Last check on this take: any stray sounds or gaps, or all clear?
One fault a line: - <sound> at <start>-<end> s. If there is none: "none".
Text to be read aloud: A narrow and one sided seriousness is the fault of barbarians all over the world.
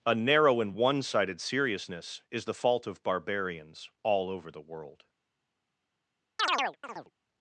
- chirp at 6.4-7.1 s